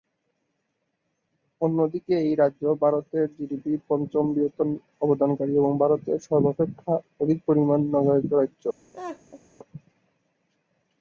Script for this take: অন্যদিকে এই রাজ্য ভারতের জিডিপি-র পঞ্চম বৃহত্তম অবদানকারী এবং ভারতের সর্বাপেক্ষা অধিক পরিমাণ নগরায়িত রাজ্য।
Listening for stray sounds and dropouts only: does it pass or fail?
fail